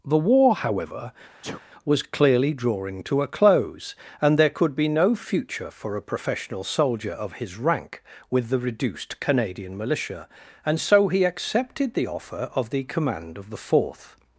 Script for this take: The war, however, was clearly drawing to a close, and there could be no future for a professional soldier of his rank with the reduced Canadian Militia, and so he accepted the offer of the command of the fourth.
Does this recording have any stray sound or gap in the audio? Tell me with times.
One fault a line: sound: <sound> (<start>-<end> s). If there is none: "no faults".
sound: sneeze (1.4-1.6 s)